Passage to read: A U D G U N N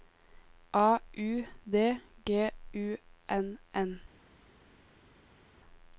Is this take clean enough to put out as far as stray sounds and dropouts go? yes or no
yes